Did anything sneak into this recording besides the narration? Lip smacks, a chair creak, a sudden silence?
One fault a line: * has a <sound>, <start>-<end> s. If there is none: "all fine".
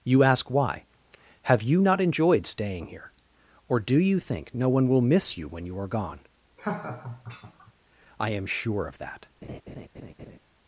* has a laugh, 6.6-7.7 s
* has a laugh, 9.4-10.4 s